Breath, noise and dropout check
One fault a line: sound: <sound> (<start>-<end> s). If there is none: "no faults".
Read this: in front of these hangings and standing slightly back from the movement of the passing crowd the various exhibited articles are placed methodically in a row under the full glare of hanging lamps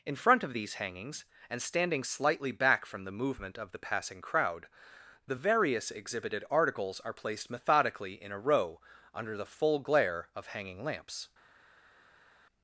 no faults